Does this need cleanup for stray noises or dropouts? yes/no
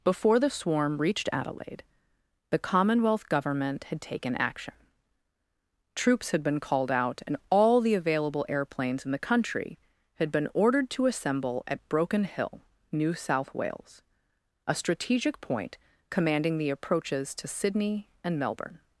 no